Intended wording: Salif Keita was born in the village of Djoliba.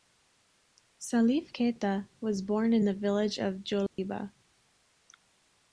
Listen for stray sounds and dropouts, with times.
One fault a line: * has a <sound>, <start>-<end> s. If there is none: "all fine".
* has a dropout, 3.9-4.0 s